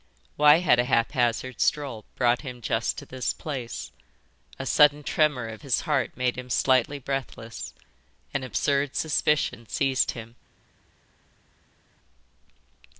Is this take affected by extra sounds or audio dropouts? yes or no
no